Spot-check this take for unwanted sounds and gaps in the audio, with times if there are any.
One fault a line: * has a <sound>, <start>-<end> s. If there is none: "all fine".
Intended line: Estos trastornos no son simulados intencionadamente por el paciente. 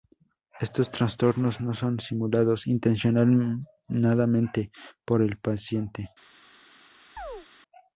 * has a chirp, 7.2-7.5 s